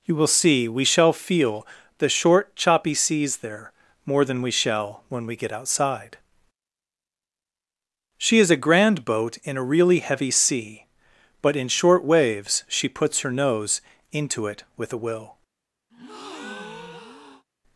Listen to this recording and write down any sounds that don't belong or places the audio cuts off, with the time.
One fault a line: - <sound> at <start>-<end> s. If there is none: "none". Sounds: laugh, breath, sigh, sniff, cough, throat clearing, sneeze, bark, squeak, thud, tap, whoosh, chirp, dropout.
- breath at 15.9-17.4 s